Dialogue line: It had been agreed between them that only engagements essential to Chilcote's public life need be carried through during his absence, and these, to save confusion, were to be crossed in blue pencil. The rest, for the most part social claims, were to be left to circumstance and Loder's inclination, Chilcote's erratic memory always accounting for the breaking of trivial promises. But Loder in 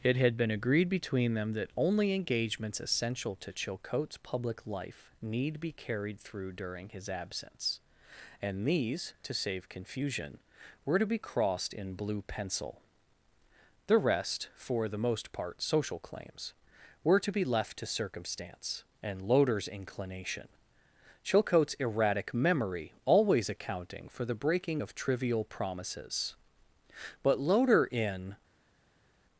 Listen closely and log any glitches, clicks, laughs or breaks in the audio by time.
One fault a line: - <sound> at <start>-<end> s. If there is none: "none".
none